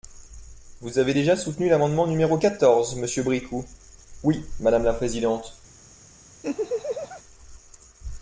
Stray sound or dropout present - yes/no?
yes